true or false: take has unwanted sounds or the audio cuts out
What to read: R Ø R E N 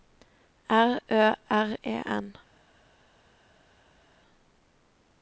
false